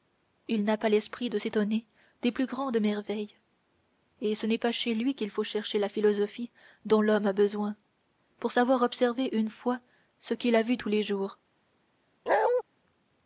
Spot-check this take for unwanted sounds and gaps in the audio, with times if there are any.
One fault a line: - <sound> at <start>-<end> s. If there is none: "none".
- bark at 12.3-12.6 s